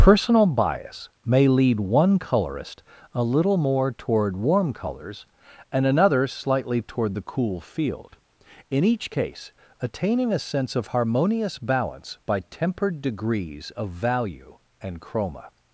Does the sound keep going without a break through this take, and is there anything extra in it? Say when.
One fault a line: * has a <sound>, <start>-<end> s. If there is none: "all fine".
all fine